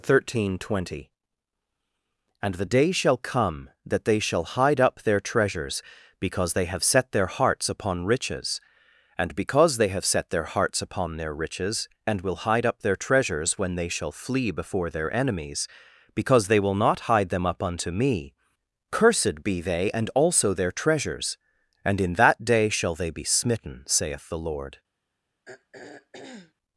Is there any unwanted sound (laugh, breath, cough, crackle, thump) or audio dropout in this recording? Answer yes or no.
yes